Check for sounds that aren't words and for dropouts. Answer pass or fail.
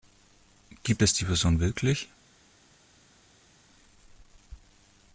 pass